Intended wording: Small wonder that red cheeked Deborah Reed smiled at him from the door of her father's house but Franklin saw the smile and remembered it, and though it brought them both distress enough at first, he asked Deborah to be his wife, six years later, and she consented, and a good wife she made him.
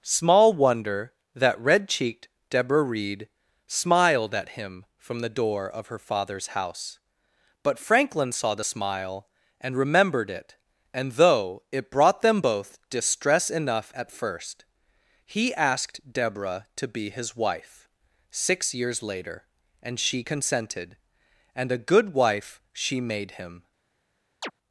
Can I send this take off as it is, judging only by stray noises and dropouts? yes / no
no